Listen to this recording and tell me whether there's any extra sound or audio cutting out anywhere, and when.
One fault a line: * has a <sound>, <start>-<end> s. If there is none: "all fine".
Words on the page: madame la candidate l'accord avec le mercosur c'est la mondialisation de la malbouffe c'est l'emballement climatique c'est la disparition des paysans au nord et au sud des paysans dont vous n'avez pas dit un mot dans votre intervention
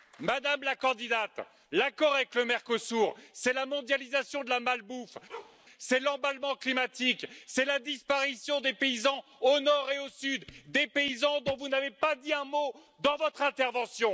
* has a bark, 5.3-5.6 s